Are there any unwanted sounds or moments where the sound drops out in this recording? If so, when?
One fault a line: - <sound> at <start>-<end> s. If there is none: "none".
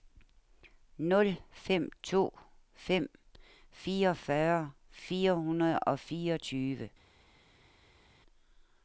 none